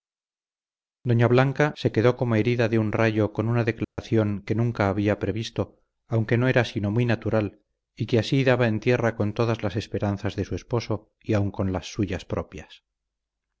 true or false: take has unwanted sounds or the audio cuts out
true